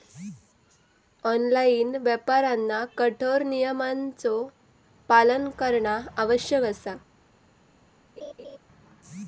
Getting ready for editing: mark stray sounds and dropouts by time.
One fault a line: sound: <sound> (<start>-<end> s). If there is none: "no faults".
sound: laugh (8.2-8.6 s)